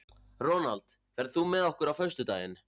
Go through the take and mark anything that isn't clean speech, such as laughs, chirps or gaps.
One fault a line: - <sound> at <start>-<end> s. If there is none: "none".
none